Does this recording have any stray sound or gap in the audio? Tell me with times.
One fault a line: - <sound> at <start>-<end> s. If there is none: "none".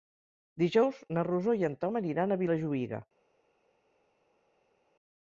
none